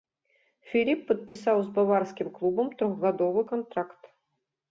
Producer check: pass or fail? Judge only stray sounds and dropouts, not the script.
fail